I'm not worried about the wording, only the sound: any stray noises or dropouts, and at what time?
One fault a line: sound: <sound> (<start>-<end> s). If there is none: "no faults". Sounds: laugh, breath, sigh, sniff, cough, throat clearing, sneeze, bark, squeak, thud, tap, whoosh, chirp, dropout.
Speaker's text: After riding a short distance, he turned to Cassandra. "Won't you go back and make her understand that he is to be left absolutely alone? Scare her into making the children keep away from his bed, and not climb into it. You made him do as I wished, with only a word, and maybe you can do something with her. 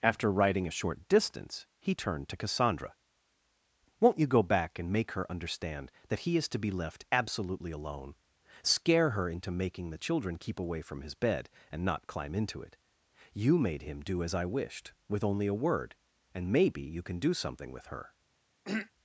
sound: throat clearing (18.6-18.9 s)